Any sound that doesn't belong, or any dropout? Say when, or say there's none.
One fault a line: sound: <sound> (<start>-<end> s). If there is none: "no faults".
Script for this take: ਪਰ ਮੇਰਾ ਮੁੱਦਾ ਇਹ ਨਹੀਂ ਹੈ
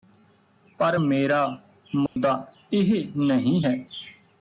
sound: dropout (2.1-2.2 s)